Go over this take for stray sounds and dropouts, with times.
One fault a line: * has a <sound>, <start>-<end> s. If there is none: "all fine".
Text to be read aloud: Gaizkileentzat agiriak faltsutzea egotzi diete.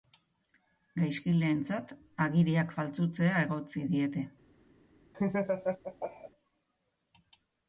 * has a laugh, 5.1-6.3 s